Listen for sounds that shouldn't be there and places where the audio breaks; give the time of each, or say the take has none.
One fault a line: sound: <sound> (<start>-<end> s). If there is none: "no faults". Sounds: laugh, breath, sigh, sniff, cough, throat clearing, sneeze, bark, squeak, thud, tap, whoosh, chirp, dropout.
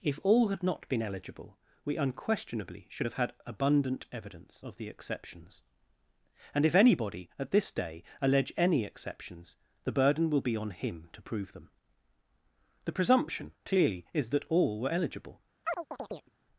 sound: chirp (15.6-16.3 s)